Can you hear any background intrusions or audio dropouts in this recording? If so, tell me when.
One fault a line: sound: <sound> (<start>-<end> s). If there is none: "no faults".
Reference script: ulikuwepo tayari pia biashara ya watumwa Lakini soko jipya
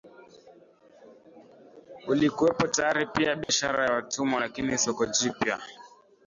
sound: dropout (3.4-3.5 s)